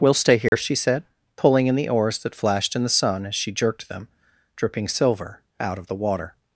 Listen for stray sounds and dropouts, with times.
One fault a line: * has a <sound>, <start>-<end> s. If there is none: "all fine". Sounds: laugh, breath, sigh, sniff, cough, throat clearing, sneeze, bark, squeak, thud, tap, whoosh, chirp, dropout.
* has a dropout, 0.5-0.5 s